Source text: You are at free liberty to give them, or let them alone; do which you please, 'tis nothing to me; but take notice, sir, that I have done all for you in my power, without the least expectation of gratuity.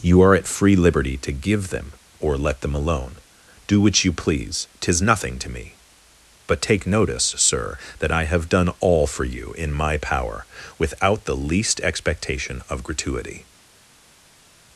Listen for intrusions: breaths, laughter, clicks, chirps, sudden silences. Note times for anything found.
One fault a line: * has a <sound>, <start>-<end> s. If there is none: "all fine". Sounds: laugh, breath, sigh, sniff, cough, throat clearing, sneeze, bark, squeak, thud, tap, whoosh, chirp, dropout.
all fine